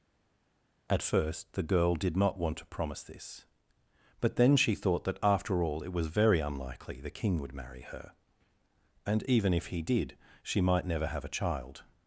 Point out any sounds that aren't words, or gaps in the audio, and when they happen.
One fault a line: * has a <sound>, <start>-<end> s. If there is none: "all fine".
all fine